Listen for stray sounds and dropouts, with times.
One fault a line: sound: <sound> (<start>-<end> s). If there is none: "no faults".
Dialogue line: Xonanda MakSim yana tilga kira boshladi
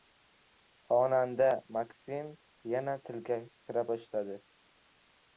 no faults